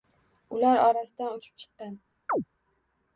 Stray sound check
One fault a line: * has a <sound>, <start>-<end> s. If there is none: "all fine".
* has a chirp, 2.3-2.4 s